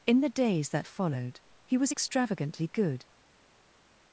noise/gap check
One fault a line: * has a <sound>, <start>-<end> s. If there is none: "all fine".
all fine